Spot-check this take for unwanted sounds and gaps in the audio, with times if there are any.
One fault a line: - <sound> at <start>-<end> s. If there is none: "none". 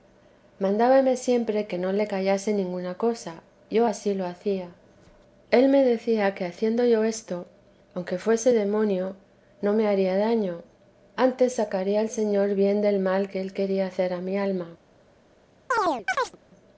- chirp at 15.7-16.4 s